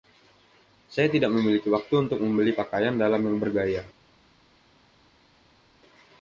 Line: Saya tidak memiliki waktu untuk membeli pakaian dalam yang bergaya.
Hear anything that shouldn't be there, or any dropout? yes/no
no